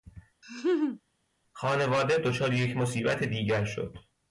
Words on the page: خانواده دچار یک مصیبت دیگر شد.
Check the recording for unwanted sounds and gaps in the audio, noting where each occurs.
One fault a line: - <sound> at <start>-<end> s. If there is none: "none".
- laugh at 0.4-1.0 s